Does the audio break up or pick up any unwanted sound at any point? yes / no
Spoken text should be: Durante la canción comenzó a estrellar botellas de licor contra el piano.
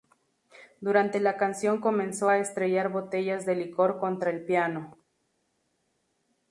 no